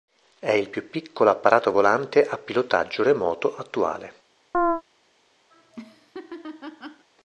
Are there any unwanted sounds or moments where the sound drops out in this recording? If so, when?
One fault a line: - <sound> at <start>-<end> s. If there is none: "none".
- chirp at 4.5-4.8 s
- laugh at 5.5-7.1 s